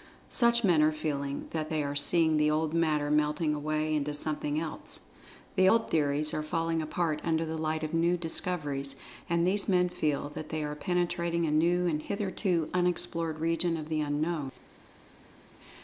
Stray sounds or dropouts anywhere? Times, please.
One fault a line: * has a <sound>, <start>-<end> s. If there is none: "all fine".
all fine